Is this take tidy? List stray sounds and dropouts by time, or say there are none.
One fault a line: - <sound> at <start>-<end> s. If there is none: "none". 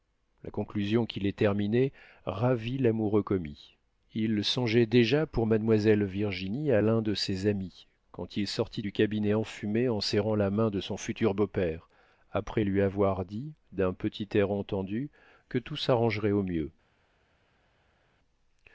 none